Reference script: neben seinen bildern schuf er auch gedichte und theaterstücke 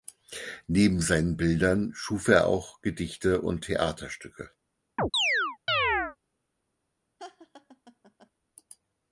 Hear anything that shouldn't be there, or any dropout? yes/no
yes